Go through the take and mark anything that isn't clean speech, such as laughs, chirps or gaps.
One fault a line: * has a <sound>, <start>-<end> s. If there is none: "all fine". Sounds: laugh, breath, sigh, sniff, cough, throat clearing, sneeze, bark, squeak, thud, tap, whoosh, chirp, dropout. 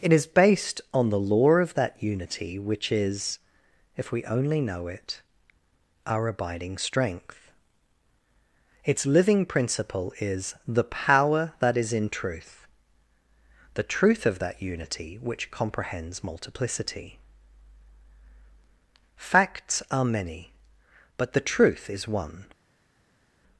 all fine